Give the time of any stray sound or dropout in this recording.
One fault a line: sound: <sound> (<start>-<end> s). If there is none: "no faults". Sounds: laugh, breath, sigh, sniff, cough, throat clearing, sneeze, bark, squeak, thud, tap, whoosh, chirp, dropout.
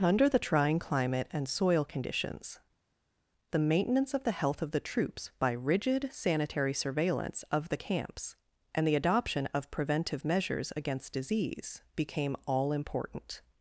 no faults